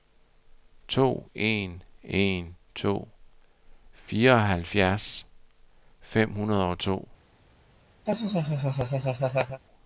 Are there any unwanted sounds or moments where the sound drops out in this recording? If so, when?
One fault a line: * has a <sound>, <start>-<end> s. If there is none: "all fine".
* has a laugh, 8.1-9.6 s